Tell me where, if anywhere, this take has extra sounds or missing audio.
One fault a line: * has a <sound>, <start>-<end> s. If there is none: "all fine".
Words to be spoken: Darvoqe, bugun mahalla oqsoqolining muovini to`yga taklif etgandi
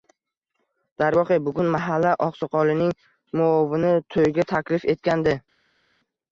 all fine